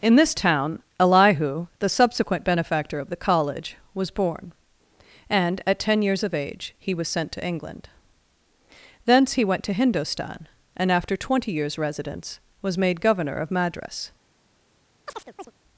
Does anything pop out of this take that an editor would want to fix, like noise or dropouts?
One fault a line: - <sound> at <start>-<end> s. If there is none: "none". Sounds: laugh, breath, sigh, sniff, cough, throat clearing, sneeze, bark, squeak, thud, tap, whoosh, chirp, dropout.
- chirp at 15.1-15.5 s